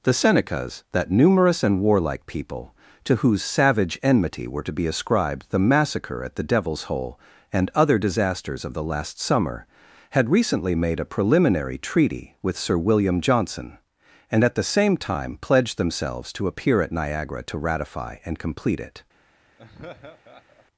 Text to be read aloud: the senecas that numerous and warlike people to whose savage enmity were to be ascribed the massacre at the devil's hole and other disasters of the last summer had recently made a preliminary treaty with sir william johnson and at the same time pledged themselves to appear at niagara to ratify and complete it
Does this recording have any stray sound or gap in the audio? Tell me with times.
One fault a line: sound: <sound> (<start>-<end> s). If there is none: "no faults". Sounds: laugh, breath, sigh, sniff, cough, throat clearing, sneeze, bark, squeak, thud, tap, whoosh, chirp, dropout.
sound: laugh (19.6-20.7 s)